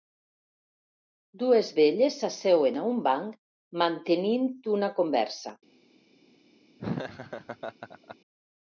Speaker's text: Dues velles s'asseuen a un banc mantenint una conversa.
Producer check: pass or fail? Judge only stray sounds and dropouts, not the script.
fail